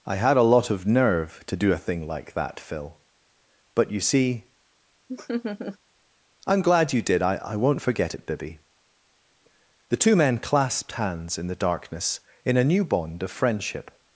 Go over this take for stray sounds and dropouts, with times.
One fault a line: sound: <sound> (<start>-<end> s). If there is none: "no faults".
sound: laugh (5.1-5.8 s)